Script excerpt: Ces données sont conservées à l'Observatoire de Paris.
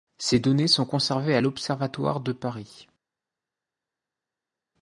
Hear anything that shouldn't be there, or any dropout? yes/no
no